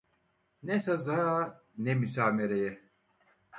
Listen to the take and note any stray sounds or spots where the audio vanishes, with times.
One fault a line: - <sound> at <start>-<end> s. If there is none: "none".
none